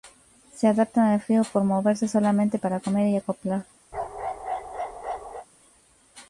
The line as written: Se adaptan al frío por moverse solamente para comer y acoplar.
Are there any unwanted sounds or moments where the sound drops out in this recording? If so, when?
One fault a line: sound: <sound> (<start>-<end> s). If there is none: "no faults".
sound: bark (3.9-5.5 s)